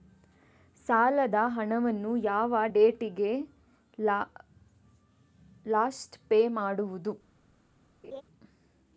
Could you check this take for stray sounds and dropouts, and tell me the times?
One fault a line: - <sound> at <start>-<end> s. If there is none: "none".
- laugh at 8.0-8.2 s